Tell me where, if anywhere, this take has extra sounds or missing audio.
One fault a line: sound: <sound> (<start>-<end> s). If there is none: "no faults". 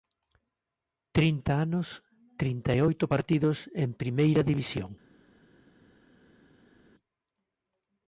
no faults